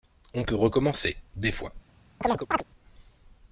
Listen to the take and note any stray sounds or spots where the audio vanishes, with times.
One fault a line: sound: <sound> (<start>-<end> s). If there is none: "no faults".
sound: chirp (2.2-2.6 s)